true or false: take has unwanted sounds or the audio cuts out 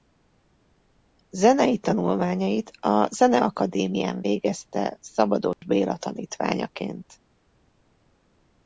true